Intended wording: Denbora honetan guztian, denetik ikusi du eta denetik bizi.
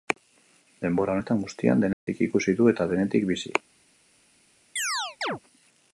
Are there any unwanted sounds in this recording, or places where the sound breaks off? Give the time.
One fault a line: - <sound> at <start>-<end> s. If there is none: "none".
- dropout at 1.9-2.1 s
- chirp at 4.8-5.4 s